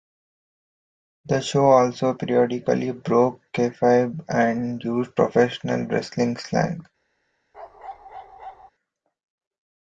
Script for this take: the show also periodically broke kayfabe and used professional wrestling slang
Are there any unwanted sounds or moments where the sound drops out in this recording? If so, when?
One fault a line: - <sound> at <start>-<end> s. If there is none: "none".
- bark at 7.5-8.7 s